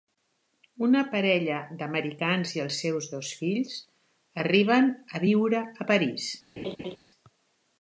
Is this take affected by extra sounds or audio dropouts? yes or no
yes